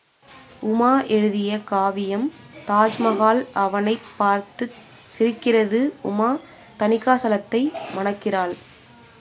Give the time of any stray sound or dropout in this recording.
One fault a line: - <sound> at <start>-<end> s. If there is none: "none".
none